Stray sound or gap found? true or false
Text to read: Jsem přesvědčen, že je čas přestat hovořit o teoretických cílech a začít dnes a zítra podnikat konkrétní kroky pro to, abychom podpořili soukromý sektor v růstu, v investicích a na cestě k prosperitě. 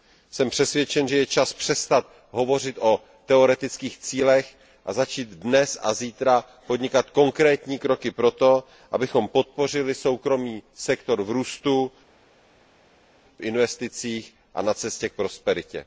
false